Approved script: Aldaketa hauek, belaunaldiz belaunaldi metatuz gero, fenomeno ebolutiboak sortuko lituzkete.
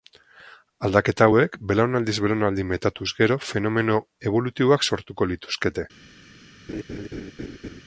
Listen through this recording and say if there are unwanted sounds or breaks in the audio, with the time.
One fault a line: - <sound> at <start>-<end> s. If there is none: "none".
- laugh at 6.7-7.8 s